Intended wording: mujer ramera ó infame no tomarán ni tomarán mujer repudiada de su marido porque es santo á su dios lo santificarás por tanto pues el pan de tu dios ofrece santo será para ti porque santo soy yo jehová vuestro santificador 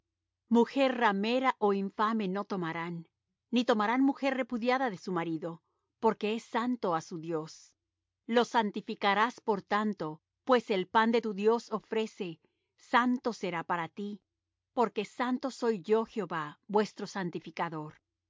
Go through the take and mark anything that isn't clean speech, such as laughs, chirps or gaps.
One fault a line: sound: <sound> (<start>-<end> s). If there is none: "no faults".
no faults